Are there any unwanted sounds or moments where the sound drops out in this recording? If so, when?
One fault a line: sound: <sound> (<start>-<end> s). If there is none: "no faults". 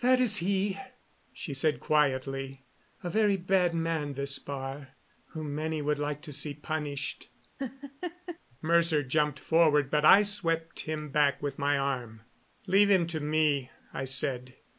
sound: laugh (7.6-8.4 s)